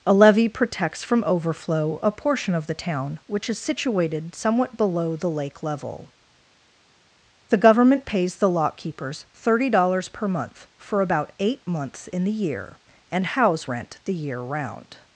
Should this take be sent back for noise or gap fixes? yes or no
no